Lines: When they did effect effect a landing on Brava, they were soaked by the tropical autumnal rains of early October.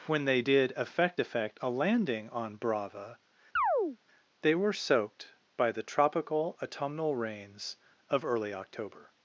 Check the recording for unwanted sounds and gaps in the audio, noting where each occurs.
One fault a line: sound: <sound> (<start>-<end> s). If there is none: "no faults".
sound: chirp (3.6-4.0 s)